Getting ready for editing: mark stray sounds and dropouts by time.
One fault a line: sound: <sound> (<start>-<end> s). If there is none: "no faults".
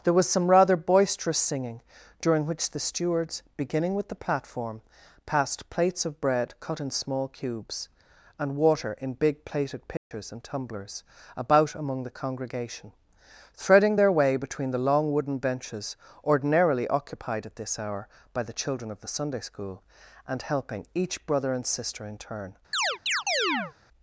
sound: dropout (10.0-10.1 s)
sound: chirp (22.7-23.7 s)